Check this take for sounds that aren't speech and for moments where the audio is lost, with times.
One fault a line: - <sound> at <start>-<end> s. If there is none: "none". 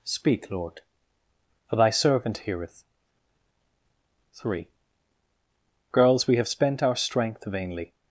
none